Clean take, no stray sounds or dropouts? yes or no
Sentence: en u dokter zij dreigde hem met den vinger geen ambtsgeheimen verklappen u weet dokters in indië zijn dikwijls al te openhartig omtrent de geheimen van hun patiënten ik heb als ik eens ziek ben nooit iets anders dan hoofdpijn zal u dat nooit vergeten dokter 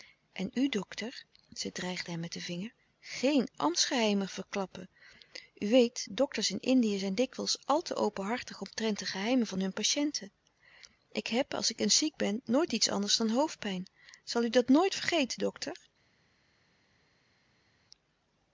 yes